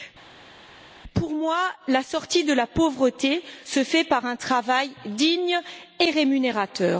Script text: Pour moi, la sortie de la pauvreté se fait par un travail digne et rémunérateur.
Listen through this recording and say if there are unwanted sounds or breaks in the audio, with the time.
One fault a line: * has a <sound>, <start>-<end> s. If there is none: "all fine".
all fine